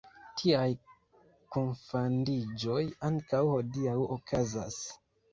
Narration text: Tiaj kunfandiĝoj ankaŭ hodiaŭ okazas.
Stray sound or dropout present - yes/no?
no